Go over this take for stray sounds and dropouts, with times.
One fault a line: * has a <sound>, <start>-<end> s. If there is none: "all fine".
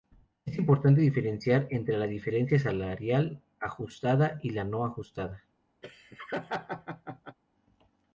* has a laugh, 5.8-7.4 s